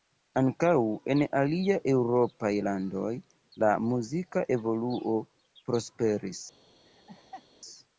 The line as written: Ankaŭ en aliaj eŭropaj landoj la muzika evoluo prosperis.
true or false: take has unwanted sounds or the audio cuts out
true